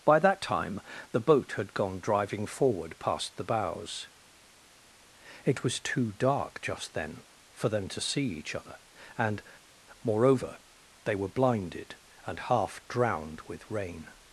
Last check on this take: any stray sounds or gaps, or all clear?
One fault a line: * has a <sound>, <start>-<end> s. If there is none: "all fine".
all fine